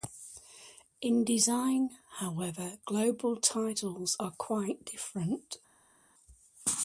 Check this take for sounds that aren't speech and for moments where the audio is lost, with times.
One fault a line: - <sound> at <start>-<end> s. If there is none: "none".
none